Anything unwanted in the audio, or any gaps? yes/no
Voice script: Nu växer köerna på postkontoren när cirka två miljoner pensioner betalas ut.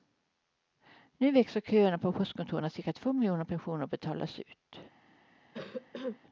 yes